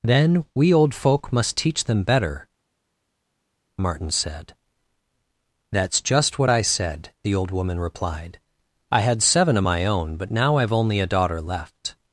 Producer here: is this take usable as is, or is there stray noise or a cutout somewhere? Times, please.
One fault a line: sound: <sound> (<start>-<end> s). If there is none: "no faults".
no faults